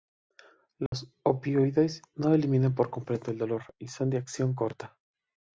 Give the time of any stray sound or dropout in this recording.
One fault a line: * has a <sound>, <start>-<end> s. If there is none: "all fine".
* has a dropout, 0.9-0.9 s